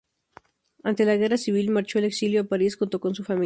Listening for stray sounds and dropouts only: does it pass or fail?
pass